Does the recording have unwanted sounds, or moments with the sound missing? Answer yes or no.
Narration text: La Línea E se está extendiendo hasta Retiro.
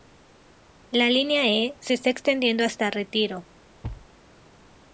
yes